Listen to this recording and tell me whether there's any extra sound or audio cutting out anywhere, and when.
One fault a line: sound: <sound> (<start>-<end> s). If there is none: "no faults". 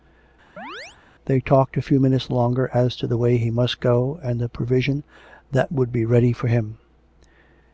sound: chirp (0.6-1.0 s)